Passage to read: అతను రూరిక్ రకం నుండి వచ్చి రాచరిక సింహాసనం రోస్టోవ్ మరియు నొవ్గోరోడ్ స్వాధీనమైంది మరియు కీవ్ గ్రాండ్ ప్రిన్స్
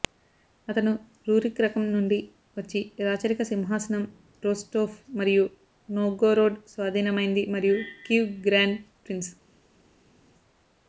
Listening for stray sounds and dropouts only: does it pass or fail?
pass